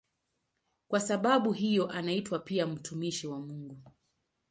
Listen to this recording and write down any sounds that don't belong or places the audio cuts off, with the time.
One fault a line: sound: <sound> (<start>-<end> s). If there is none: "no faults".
no faults